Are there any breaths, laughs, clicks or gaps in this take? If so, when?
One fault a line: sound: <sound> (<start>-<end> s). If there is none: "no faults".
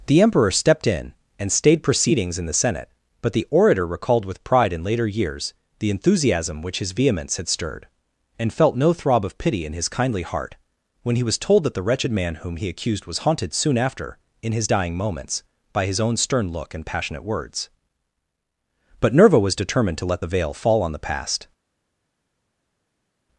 no faults